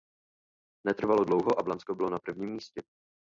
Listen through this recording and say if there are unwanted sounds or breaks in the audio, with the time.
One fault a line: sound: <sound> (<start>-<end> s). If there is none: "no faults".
no faults